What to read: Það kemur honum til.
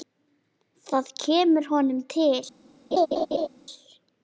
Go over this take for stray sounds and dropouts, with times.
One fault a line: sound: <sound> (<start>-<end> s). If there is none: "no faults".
sound: laugh (2.9-3.5 s)